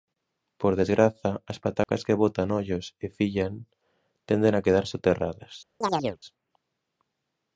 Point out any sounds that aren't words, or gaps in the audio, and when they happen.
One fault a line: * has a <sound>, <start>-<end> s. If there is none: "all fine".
* has a dropout, 1.8-1.9 s
* has a chirp, 5.8-6.2 s